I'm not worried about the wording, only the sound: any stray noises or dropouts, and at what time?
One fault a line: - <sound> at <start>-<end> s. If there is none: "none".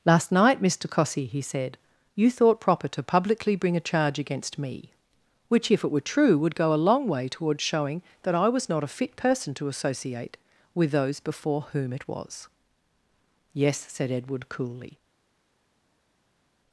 none